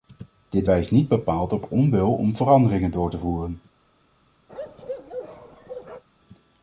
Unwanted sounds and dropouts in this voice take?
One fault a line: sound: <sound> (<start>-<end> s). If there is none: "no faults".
sound: bark (4.5-6.0 s)